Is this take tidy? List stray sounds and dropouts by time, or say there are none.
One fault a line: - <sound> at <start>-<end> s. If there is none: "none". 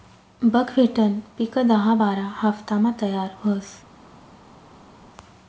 none